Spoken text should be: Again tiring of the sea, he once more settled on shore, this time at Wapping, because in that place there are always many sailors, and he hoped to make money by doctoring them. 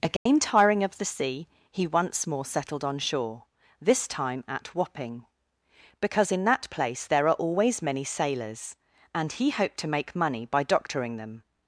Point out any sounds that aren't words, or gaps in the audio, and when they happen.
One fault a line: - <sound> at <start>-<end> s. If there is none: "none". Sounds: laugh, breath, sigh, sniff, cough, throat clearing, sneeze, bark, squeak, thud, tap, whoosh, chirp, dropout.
- dropout at 0.2-0.3 s